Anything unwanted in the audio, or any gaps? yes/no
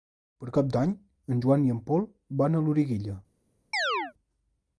yes